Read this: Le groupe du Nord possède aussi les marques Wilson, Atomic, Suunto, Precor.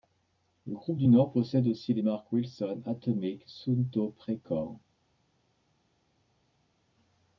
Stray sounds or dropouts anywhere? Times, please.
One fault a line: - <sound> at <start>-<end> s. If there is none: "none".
none